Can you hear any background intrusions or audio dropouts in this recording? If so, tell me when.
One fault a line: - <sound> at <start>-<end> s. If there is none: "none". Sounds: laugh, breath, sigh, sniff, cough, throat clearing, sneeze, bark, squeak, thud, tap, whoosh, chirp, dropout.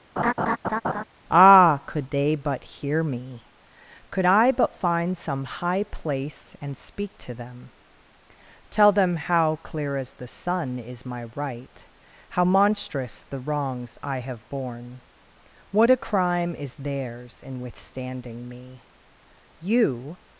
- laugh at 0.2-1.0 s